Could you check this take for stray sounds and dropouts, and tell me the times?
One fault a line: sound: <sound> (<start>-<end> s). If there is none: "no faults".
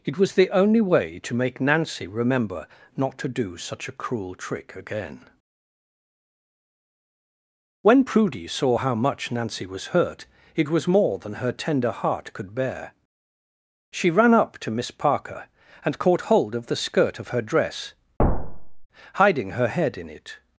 sound: thud (18.2-18.9 s)